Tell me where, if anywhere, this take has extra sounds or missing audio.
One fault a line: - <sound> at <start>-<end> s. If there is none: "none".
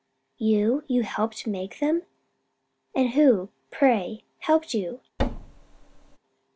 - thud at 5.2-6.2 s